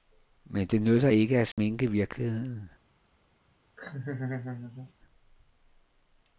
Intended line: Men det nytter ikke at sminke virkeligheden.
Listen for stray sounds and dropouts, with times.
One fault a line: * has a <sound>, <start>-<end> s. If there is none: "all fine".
* has a dropout, 1.5-1.6 s
* has a laugh, 3.8-4.9 s